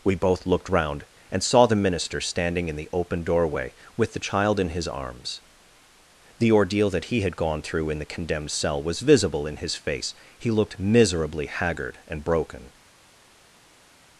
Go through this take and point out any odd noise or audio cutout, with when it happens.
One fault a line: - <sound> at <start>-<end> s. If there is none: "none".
none